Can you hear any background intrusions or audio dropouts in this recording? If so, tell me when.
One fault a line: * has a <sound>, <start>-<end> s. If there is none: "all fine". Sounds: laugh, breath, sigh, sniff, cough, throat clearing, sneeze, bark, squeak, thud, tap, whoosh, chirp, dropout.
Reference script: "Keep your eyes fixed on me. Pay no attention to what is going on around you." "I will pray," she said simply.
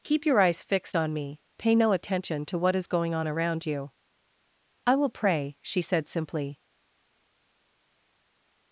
all fine